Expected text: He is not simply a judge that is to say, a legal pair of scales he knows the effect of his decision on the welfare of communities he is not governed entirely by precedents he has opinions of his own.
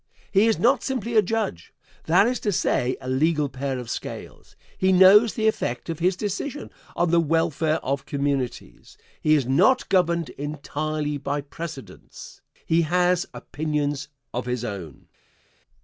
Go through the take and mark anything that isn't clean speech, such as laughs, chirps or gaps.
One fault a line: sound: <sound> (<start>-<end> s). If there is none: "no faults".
no faults